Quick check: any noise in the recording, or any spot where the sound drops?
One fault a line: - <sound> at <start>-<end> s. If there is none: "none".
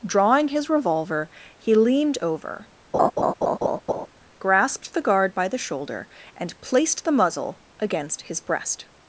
- laugh at 2.9-4.1 s